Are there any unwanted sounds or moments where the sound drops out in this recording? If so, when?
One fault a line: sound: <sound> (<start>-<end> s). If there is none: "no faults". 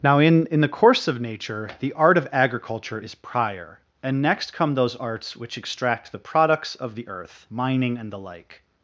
no faults